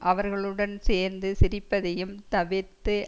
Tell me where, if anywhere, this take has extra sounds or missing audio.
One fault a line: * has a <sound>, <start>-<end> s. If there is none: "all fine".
all fine